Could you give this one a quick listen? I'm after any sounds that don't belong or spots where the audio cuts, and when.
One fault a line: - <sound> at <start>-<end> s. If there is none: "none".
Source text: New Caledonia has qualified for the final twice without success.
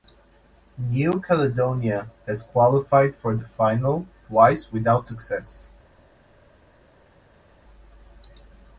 none